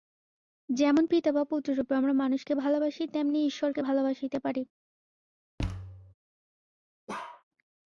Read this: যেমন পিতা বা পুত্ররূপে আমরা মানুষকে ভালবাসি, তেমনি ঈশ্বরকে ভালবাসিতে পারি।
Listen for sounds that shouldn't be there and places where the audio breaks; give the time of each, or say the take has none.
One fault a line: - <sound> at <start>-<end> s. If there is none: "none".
- thud at 5.6-6.1 s
- bark at 7.1-7.4 s